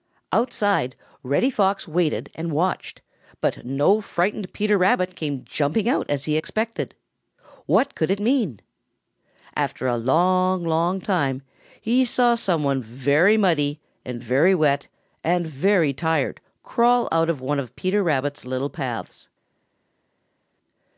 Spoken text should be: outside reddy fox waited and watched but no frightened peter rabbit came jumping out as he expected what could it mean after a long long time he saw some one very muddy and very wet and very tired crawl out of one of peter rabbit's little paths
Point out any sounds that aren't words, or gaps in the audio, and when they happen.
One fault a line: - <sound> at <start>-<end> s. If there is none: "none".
none